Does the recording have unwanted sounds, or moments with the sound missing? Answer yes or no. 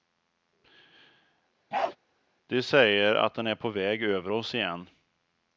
yes